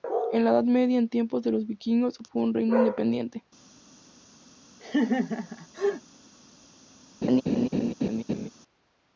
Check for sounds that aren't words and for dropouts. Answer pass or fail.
fail